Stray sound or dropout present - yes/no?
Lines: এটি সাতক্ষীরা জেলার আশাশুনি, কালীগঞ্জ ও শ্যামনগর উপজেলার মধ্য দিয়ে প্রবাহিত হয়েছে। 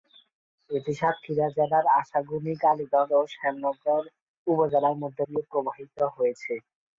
no